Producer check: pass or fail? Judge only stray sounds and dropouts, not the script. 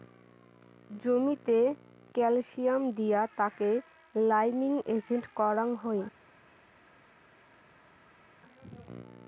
pass